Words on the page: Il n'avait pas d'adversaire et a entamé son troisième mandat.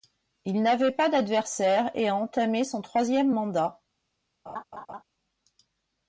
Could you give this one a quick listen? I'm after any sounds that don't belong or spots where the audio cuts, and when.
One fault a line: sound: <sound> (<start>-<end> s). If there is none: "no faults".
sound: laugh (4.5-5.0 s)